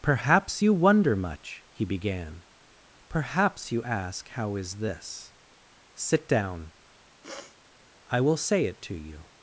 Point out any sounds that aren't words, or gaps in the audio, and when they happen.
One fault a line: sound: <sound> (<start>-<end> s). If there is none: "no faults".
sound: sniff (7.2-7.6 s)